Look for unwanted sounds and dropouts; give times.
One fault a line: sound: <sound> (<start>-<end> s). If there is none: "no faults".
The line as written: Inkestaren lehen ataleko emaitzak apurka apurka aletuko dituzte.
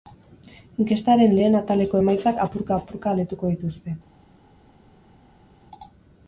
no faults